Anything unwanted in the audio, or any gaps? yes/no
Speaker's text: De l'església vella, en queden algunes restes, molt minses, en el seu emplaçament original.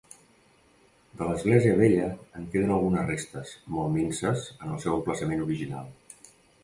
no